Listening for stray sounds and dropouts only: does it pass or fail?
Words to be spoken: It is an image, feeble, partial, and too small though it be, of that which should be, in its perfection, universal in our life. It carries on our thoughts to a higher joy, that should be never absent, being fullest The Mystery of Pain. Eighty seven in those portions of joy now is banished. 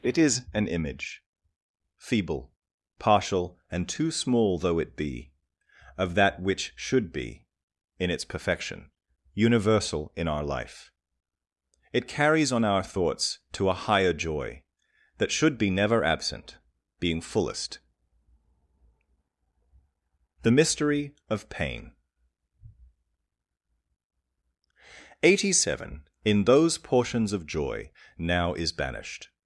pass